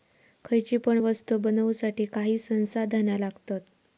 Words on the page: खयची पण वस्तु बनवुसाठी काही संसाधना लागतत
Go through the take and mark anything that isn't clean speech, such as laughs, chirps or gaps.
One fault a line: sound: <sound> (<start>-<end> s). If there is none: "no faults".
no faults